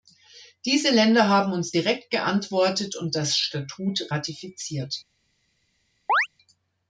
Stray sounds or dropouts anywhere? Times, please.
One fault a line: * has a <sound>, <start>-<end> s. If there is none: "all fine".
* has a chirp, 6.1-6.3 s